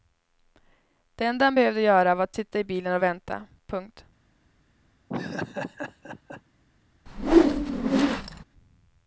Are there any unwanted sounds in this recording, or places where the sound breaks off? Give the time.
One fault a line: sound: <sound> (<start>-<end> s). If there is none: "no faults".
sound: laugh (5.1-6.4 s)
sound: whoosh (7.1-8.4 s)